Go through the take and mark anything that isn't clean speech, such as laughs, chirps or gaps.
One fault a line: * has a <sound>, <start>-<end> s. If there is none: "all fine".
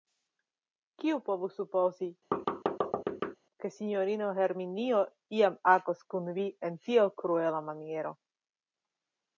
* has a thud, 2.3-3.4 s